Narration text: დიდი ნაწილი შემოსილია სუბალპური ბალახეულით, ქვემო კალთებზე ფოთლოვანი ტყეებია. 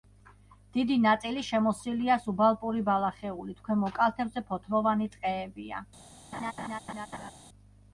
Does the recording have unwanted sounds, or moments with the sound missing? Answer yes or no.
yes